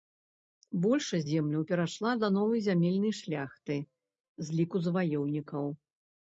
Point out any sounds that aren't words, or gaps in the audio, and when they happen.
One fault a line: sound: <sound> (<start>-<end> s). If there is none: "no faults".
no faults